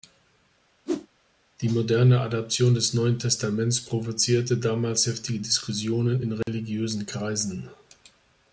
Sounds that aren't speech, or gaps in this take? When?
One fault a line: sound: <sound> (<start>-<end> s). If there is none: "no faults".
sound: whoosh (0.9-1.1 s)
sound: dropout (6.4-6.5 s)